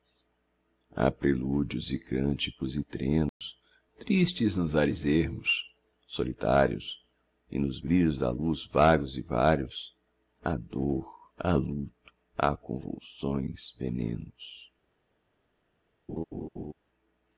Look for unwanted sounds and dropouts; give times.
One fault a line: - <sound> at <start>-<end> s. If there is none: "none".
- dropout at 3.3-3.4 s
- laugh at 16.1-16.7 s